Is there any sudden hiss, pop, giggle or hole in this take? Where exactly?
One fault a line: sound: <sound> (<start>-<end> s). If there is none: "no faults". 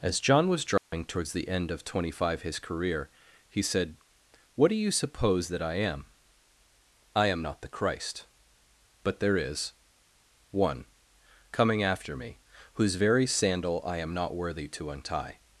sound: dropout (0.8-0.9 s)